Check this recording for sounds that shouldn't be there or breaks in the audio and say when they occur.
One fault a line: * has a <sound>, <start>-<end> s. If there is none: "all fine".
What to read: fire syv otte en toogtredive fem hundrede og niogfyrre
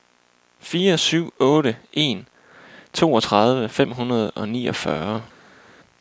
all fine